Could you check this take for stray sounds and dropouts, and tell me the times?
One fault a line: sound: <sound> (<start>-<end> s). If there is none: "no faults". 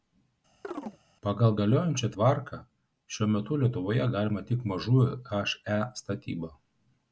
sound: chirp (0.6-1.0 s)